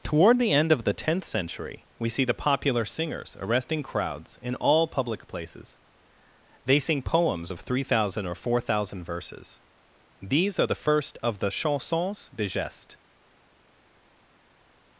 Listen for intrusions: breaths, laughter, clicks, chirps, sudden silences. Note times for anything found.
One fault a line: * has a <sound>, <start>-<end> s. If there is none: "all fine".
all fine